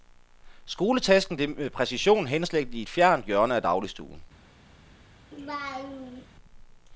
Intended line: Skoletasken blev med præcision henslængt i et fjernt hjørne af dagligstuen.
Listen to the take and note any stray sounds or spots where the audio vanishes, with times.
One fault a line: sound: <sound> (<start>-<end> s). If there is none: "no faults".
sound: laugh (5.3-6.3 s)